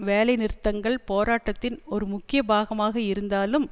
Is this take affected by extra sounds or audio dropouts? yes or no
no